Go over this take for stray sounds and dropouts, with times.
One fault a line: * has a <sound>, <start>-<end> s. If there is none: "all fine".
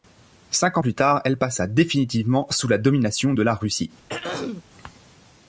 * has a throat clearing, 4.1-4.6 s